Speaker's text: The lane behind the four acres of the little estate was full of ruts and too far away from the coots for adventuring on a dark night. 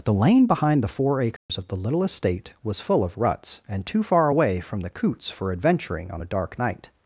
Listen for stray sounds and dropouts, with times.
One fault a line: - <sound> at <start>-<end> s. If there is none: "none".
- dropout at 1.4-1.5 s